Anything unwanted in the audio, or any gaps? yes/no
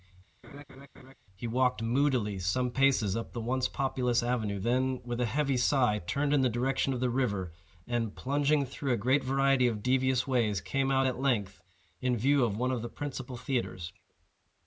yes